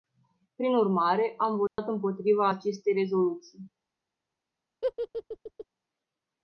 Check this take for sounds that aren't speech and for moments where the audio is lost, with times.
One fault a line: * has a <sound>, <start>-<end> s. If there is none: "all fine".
* has a dropout, 1.7-1.8 s
* has a laugh, 4.8-5.7 s